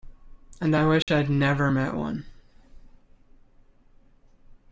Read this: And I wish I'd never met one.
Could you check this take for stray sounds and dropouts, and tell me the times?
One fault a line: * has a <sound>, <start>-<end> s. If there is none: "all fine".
* has a dropout, 1.0-1.1 s